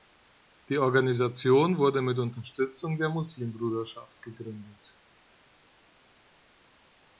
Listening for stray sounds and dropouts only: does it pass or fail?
pass